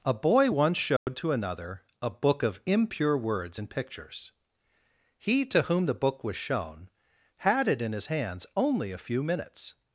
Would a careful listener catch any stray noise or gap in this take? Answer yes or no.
yes